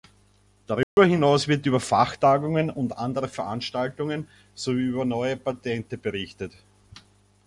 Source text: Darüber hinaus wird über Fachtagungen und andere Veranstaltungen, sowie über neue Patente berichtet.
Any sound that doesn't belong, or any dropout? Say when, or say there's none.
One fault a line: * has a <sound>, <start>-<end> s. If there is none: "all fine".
* has a dropout, 0.8-1.0 s